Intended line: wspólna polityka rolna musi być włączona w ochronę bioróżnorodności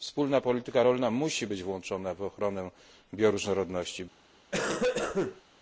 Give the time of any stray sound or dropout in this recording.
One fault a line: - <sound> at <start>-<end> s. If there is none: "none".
- cough at 4.5-5.4 s